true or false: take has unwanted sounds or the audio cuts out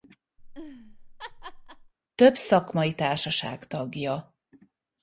true